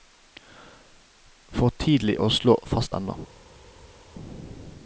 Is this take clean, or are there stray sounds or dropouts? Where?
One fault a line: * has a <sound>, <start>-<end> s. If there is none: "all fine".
all fine